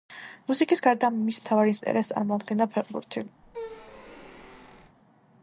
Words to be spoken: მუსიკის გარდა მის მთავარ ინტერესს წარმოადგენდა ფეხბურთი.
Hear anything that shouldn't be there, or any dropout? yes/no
yes